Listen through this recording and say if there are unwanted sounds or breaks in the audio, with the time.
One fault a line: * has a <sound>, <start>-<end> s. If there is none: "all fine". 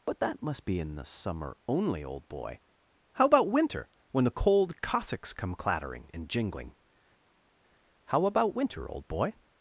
all fine